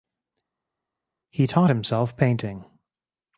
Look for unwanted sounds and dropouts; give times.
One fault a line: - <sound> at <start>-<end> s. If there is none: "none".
none